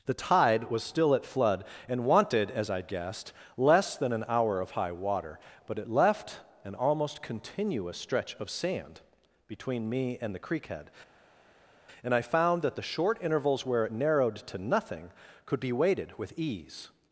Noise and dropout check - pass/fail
pass